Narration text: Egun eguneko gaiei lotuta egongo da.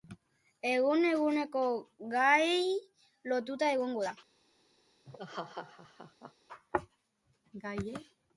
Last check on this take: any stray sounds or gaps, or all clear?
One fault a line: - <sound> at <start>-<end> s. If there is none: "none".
- laugh at 5.0-6.3 s